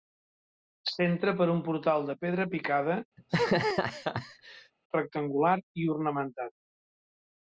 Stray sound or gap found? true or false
true